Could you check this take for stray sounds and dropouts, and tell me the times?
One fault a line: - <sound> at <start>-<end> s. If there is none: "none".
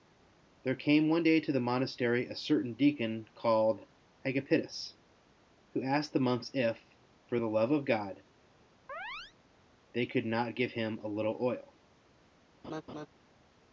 - chirp at 8.9-9.3 s
- laugh at 12.6-13.1 s